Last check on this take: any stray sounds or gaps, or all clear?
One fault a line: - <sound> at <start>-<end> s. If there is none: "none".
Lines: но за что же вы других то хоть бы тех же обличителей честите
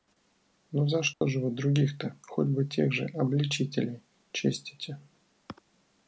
- dropout at 1.1-1.2 s